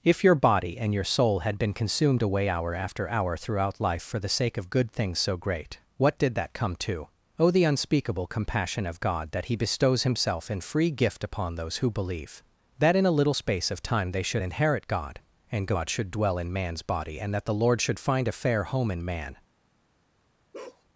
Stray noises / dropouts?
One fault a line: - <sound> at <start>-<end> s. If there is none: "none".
- bark at 20.5-20.8 s